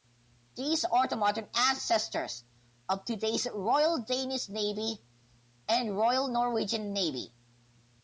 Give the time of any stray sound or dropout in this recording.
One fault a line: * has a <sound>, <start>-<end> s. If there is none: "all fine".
all fine